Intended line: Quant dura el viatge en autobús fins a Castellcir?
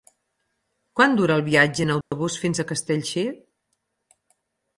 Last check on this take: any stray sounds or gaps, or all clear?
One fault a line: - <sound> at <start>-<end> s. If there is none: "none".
- dropout at 2.0-2.1 s